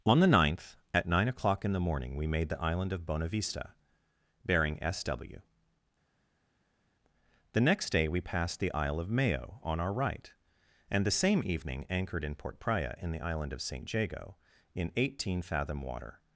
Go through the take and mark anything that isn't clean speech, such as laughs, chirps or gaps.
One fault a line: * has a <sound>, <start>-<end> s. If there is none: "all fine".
all fine